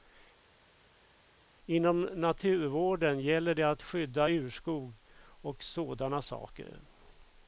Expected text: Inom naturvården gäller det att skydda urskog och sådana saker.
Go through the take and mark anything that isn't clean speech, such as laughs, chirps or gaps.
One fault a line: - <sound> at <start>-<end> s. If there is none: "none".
none